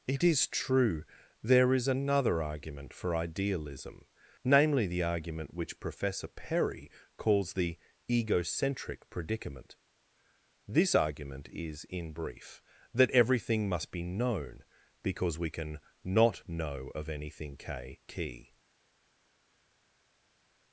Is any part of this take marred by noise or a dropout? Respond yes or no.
no